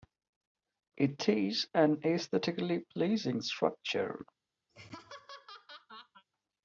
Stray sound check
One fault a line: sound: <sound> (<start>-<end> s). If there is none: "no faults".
sound: laugh (4.7-6.2 s)